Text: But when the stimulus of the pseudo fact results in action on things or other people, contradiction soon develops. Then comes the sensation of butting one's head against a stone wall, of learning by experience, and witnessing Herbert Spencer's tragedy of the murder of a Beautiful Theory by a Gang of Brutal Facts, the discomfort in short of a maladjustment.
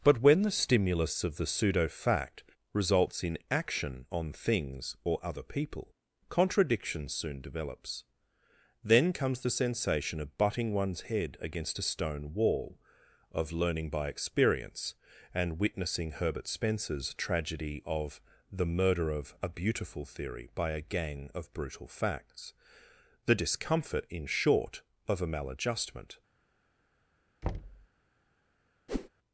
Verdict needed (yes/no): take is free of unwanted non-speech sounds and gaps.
no